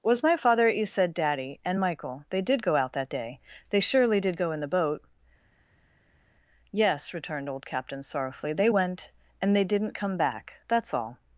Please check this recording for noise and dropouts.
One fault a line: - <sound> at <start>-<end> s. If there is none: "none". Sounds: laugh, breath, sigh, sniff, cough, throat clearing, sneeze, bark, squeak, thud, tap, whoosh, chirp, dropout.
none